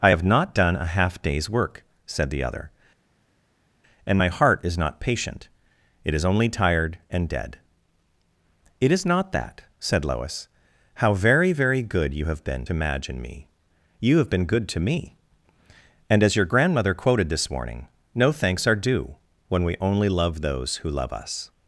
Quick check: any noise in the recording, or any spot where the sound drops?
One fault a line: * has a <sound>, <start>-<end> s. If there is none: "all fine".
all fine